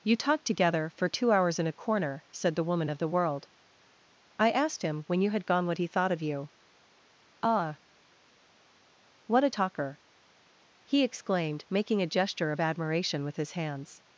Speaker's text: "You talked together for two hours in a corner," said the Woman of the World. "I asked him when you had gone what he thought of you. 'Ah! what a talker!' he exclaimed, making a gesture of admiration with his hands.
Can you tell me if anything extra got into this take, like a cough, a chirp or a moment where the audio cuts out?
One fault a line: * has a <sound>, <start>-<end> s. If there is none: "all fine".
all fine